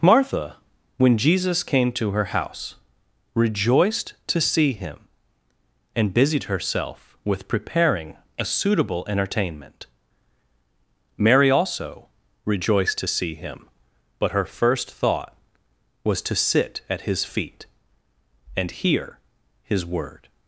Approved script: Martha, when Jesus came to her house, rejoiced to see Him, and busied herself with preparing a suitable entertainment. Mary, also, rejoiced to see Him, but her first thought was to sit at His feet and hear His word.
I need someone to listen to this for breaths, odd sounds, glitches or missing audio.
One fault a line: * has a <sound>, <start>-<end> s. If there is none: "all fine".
all fine